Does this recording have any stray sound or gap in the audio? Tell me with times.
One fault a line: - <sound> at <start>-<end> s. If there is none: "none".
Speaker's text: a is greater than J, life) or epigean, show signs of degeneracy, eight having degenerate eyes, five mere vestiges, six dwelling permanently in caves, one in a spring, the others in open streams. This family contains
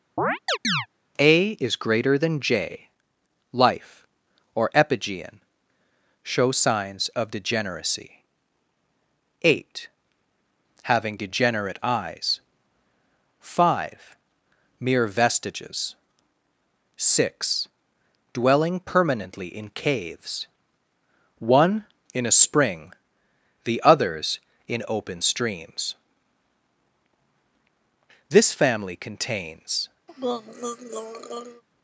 - chirp at 0.2-0.9 s
- throat clearing at 30.1-31.6 s